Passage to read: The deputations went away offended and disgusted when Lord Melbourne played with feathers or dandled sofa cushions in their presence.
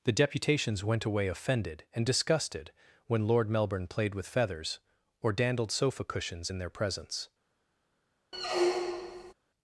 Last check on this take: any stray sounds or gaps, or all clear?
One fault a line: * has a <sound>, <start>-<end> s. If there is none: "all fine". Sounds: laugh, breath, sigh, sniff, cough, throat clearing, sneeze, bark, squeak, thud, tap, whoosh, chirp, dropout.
* has a squeak, 8.3-9.3 s